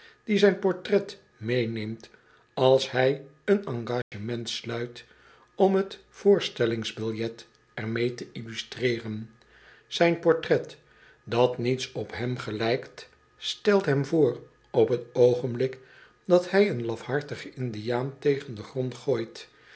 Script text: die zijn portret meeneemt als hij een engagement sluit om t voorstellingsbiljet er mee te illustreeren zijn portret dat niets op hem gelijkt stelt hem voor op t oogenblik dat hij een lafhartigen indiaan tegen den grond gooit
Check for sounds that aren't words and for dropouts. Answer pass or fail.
fail